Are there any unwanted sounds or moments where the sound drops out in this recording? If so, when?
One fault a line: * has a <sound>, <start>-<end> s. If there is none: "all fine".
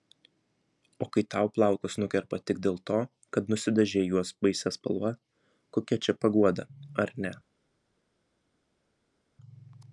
all fine